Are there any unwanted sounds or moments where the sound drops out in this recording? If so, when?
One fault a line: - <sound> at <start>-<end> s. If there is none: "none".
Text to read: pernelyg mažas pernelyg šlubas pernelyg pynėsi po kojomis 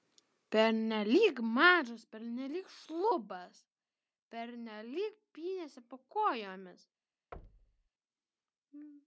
- thud at 7.3-7.9 s